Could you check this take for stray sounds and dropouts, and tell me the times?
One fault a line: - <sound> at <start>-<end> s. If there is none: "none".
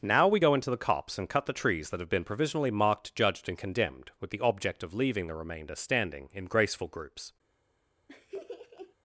- laugh at 8.1-9.0 s